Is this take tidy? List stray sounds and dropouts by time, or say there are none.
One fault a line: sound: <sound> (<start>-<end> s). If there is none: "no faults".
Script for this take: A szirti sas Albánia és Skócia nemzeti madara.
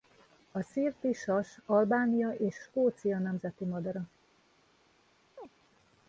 sound: chirp (5.4-5.5 s)